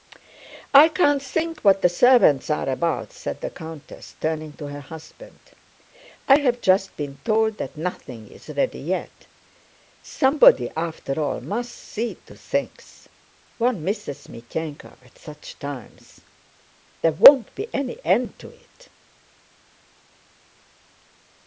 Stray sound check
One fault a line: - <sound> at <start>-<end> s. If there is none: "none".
none